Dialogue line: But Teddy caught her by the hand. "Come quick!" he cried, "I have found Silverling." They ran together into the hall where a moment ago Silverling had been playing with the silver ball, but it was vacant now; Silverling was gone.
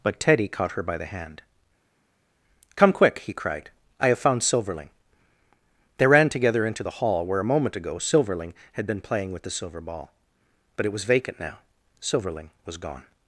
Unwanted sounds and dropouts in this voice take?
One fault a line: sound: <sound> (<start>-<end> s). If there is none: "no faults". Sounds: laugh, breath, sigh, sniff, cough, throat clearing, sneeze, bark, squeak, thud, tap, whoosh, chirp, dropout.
no faults